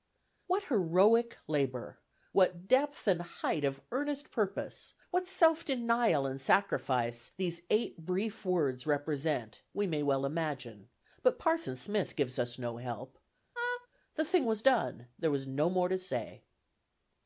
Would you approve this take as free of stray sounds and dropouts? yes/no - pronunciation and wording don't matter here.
no